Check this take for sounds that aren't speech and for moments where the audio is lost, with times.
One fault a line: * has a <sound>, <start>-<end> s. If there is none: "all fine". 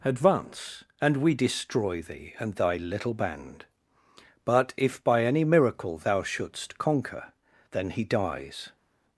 all fine